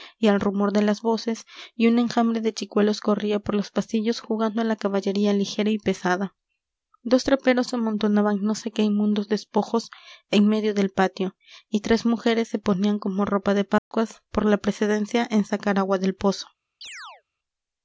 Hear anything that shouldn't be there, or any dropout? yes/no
yes